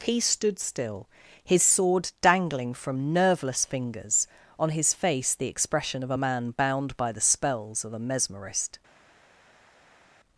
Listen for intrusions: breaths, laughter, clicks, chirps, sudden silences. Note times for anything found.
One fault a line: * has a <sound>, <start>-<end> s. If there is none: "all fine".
all fine